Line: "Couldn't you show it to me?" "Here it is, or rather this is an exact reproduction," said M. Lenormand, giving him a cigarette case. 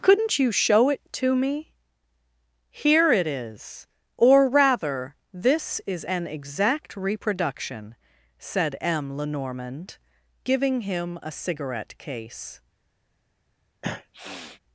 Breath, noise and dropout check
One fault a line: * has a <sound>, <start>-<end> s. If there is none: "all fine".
* has a sniff, 13.8-14.6 s